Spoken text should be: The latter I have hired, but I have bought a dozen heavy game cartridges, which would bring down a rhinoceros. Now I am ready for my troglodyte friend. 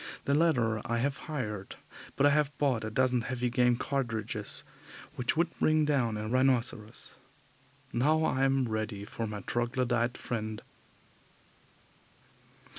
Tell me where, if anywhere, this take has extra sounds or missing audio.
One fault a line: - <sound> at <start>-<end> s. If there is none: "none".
none